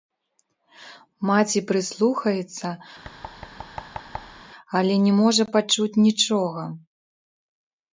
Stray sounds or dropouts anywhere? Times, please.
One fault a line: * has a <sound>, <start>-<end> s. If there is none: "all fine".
* has a thud, 3.0-4.4 s